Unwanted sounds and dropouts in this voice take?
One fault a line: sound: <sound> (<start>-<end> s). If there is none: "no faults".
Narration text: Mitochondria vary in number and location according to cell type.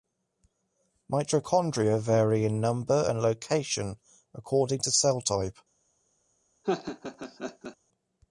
sound: laugh (6.6-7.8 s)